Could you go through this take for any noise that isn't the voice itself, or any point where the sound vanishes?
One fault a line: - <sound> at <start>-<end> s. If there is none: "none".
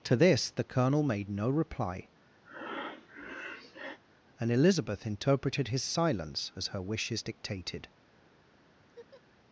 - breath at 2.4-4.0 s
- laugh at 8.8-9.2 s